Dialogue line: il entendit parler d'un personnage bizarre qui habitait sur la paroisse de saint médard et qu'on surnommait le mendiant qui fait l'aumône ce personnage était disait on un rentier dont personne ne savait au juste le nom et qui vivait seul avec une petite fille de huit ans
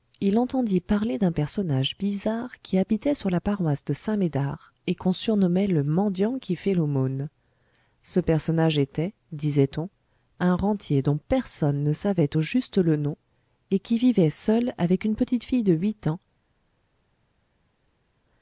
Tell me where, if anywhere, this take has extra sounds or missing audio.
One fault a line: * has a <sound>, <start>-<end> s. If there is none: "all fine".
all fine